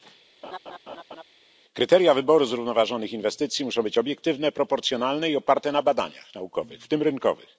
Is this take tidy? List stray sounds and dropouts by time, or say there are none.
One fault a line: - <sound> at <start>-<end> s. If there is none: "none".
- laugh at 0.4-1.2 s